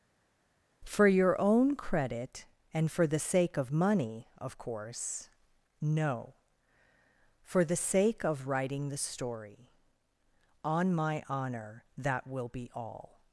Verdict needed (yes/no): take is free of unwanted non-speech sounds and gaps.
yes